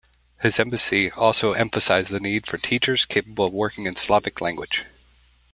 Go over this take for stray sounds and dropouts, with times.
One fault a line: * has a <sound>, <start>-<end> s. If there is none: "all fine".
all fine